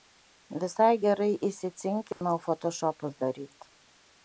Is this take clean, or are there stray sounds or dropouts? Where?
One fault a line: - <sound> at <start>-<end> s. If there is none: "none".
- dropout at 2.1-2.2 s